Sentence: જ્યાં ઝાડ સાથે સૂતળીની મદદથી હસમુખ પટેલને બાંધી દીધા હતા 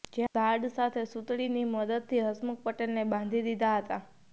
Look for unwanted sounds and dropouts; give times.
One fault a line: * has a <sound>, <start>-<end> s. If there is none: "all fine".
all fine